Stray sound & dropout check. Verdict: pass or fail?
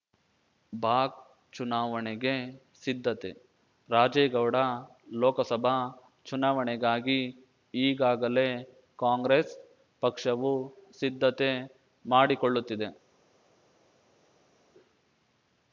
pass